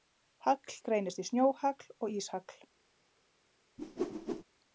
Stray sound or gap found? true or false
true